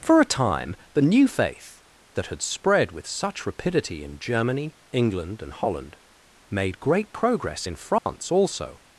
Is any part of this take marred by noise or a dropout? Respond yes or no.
yes